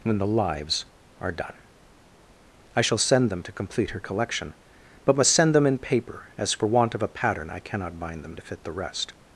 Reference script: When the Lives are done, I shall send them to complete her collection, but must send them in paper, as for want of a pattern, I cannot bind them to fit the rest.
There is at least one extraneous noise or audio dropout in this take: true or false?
false